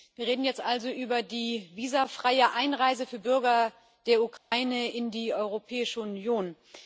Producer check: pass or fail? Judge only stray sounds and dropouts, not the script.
fail